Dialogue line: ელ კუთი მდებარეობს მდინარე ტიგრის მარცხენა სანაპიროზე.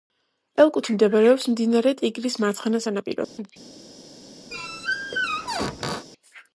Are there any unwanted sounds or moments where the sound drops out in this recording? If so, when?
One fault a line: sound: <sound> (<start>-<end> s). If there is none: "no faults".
sound: dropout (3.2-3.4 s)
sound: squeak (4.5-6.1 s)